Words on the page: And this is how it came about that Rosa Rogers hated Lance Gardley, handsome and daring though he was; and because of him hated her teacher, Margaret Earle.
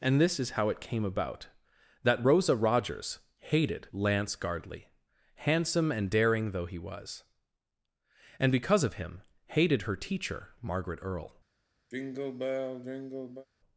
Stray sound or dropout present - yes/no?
yes